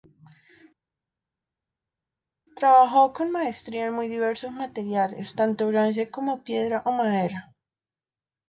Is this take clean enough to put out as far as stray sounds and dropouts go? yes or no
yes